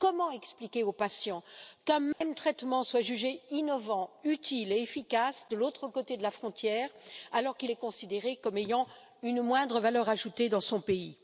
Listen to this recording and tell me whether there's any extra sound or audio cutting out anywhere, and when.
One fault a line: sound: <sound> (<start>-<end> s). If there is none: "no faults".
sound: dropout (2.1-2.2 s)